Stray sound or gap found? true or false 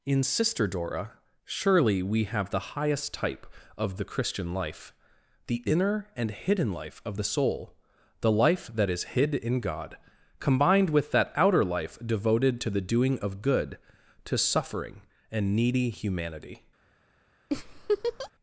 true